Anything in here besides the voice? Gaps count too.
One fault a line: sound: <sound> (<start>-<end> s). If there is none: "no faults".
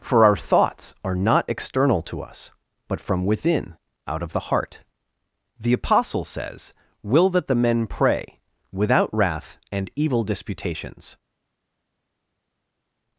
no faults